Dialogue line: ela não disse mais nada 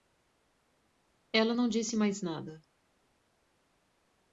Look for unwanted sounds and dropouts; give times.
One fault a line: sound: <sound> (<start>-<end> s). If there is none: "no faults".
no faults